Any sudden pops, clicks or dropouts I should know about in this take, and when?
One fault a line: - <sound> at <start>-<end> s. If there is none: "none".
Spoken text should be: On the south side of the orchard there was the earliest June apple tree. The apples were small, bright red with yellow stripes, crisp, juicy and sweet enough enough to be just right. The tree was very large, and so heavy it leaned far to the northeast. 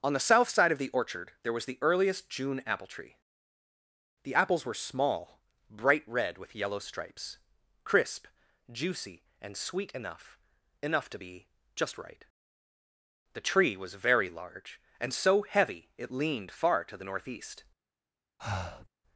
- breath at 18.4-18.9 s